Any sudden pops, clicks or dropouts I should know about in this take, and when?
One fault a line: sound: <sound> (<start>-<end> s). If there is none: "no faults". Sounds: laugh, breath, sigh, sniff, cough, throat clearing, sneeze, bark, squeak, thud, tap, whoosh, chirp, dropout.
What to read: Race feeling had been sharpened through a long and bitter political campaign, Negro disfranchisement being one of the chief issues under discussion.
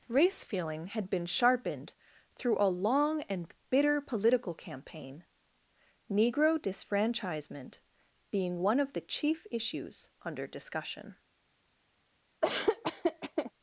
sound: laugh (12.4-13.5 s)